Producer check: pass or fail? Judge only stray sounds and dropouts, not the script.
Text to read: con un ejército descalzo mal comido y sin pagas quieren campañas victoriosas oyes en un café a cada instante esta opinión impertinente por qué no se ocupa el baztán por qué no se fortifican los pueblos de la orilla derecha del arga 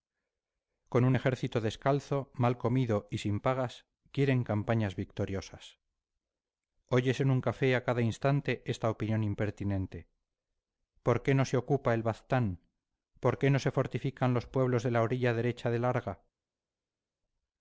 pass